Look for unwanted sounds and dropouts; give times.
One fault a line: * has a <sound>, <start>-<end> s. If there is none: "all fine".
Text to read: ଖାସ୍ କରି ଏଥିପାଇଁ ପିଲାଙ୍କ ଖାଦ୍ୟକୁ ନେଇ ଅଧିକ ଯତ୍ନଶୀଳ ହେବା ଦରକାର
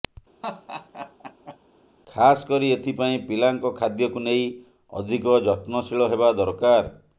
* has a laugh, 0.4-1.6 s